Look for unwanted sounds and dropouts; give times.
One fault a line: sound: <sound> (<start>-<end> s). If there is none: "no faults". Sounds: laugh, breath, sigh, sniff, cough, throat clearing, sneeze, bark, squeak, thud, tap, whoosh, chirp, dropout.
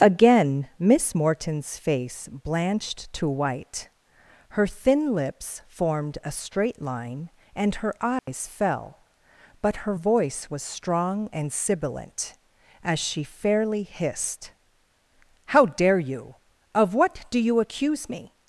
sound: dropout (8.2-8.3 s)